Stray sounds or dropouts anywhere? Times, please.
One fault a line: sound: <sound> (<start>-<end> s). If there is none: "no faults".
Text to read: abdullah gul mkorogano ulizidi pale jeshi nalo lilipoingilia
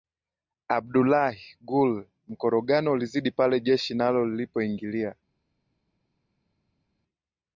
no faults